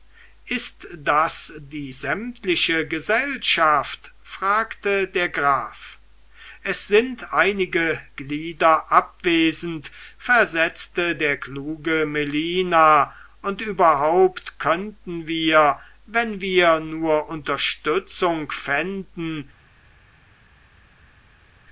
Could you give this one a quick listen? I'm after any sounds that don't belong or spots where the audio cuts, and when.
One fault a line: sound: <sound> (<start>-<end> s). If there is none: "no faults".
no faults